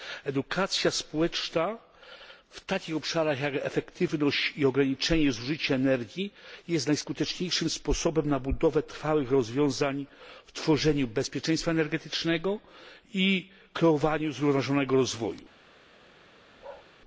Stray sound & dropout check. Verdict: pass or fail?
fail